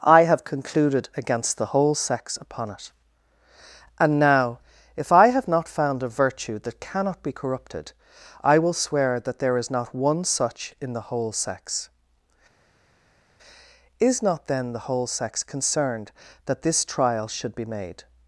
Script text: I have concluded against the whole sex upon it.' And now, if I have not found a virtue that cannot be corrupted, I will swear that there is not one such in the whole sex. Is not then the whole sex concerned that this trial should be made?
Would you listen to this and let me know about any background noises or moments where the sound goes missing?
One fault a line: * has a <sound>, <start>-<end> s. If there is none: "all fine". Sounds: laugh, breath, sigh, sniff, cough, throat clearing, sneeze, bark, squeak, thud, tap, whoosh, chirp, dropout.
all fine